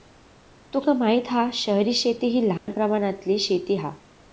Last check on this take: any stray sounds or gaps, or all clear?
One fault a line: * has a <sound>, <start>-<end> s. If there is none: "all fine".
* has a dropout, 2.6-2.7 s